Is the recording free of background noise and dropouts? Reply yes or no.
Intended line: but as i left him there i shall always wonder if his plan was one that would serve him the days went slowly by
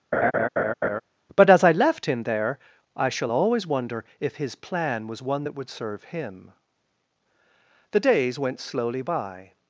no